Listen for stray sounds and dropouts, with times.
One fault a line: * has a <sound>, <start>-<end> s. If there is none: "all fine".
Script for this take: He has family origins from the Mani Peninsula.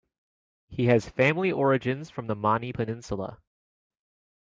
all fine